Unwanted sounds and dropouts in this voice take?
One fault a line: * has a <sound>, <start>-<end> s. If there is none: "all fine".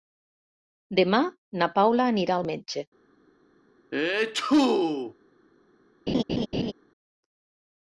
* has a sneeze, 3.9-5.1 s
* has a laugh, 6.1-6.7 s